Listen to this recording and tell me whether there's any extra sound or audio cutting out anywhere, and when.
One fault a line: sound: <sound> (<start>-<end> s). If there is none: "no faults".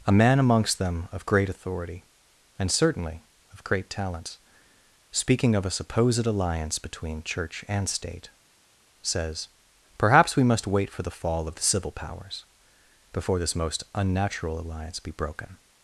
no faults